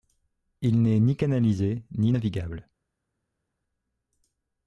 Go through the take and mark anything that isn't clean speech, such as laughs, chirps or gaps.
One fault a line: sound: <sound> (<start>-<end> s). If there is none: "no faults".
no faults